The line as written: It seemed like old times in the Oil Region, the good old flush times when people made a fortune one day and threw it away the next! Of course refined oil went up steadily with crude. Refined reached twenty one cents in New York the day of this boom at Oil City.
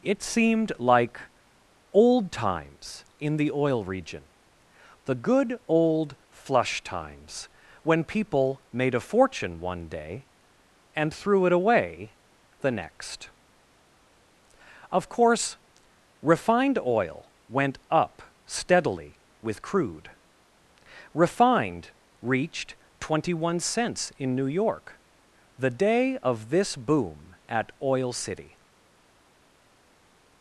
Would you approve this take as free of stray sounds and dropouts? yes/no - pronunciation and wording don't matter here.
yes